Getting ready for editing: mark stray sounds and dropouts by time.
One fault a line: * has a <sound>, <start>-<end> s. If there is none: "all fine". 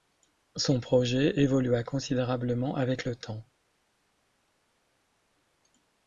all fine